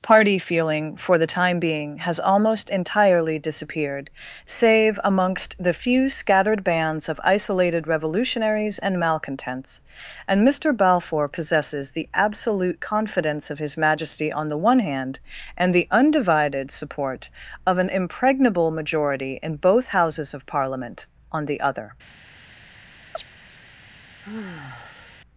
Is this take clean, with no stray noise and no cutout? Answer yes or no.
no